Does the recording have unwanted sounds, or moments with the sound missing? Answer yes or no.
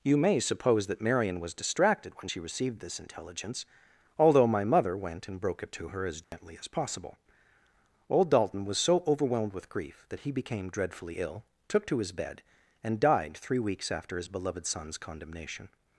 yes